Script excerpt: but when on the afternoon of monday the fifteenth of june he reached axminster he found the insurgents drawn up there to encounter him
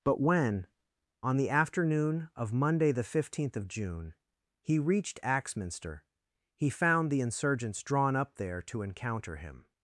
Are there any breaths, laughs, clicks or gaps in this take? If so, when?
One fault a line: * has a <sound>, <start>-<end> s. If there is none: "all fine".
all fine